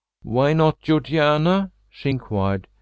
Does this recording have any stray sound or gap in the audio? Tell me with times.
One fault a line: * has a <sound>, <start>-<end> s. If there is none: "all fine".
all fine